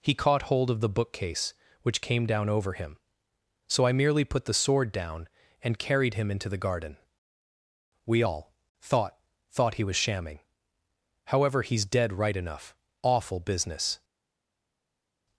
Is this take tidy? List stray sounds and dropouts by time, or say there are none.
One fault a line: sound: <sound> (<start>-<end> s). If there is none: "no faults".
no faults